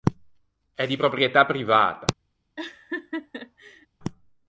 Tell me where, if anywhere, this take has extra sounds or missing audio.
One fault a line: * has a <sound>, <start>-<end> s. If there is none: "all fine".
* has a laugh, 2.6-3.9 s